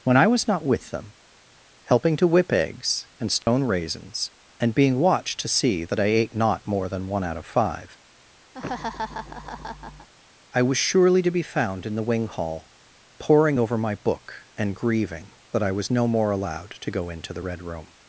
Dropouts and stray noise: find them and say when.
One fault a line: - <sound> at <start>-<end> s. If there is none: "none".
- dropout at 3.4-3.5 s
- laugh at 8.5-10.1 s